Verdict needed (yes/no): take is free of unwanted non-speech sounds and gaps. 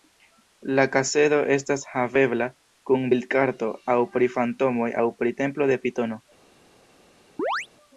no